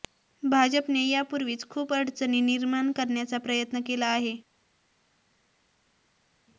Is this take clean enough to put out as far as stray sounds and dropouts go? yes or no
yes